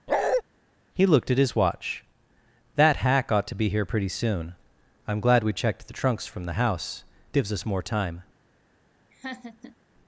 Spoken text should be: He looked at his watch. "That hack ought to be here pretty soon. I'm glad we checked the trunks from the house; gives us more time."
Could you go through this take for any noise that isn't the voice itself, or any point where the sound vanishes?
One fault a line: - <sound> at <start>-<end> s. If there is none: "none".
- bark at 0.1-0.4 s
- laugh at 9.1-9.8 s